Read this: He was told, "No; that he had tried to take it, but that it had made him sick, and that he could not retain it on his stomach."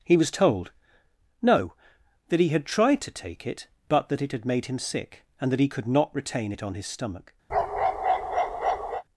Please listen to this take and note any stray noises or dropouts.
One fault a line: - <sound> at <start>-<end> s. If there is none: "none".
- bark at 7.5-9.0 s